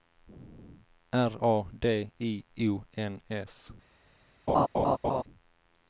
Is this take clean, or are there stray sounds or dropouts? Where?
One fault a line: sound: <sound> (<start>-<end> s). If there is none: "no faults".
sound: laugh (4.5-5.2 s)